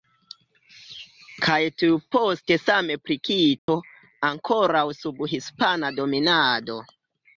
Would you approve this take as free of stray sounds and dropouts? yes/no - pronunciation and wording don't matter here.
no